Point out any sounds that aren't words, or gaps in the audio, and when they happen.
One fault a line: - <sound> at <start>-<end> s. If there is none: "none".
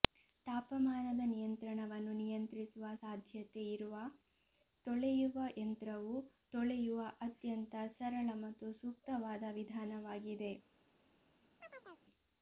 - chirp at 11.6-12.1 s